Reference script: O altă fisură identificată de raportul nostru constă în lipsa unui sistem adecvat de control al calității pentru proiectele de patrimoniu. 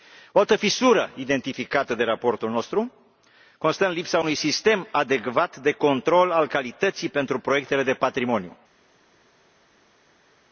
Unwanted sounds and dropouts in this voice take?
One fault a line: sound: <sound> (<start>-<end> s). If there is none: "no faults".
no faults